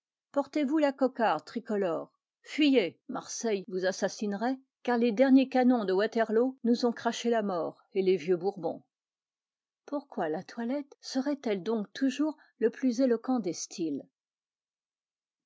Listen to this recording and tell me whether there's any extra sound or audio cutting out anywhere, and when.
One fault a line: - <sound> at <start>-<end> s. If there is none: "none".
none